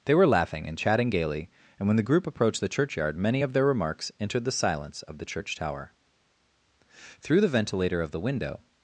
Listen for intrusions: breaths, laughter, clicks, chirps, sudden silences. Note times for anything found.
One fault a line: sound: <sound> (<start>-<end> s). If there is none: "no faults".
no faults